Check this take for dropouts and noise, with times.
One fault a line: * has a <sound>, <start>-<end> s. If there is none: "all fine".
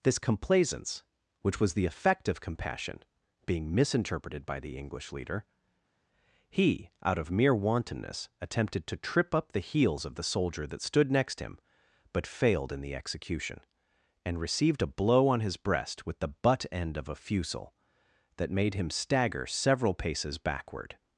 all fine